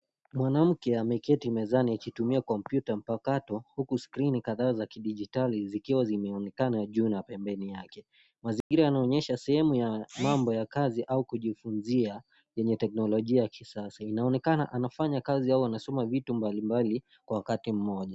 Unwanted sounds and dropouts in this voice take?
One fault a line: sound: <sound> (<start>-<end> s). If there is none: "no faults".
sound: dropout (8.6-8.7 s)